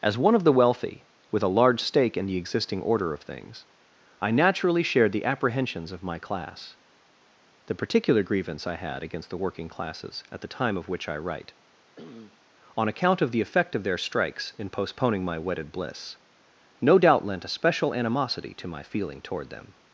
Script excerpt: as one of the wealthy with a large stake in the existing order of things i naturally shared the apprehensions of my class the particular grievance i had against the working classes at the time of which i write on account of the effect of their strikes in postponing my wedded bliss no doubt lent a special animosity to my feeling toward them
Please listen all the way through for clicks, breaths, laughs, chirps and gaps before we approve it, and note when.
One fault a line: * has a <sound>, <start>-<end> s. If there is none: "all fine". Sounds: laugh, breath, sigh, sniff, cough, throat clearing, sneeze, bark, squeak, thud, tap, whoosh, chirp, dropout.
* has a sneeze, 12.0-12.4 s